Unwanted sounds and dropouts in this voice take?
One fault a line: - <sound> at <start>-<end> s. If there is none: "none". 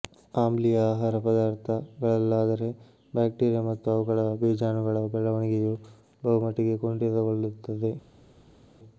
none